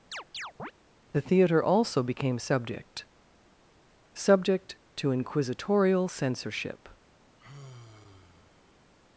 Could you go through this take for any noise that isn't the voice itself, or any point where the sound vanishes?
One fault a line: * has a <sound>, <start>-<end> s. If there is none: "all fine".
* has a chirp, 0.1-0.7 s
* has a sigh, 7.4-8.9 s